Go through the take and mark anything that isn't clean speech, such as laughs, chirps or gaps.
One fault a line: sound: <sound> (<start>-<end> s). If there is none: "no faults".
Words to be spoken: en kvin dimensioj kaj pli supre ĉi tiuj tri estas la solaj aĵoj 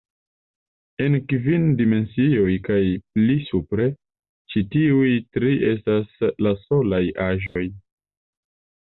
sound: dropout (7.5-7.6 s)